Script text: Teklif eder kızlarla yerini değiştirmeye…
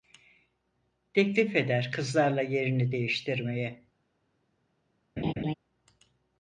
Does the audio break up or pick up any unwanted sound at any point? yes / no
yes